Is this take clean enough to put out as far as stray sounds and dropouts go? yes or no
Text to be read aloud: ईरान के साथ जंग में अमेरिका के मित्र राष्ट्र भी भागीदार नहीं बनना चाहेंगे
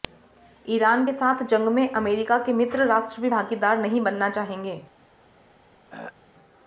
no